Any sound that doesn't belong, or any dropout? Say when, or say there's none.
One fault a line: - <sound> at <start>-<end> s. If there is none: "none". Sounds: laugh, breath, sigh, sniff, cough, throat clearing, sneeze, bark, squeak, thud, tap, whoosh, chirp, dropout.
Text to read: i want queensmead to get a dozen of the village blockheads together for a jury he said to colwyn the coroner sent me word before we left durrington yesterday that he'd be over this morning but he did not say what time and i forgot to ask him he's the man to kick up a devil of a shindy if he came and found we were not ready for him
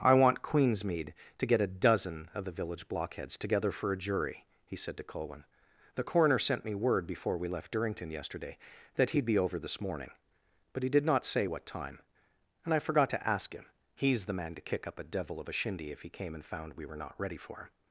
none